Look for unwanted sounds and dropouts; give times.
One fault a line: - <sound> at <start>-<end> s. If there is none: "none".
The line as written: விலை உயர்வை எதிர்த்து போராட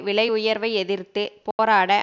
- dropout at 1.5-1.6 s